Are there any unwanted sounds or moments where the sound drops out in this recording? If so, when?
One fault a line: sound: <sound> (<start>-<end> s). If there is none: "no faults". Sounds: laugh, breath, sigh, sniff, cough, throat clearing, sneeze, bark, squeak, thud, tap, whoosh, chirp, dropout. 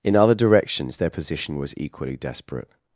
no faults